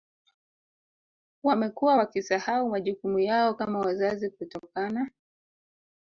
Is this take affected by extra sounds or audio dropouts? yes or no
no